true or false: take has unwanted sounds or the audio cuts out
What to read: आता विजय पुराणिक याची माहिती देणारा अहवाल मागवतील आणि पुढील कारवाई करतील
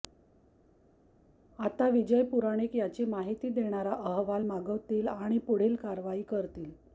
false